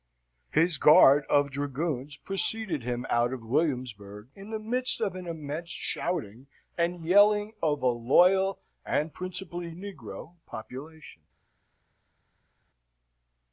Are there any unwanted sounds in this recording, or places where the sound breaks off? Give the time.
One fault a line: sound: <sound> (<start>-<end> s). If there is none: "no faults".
no faults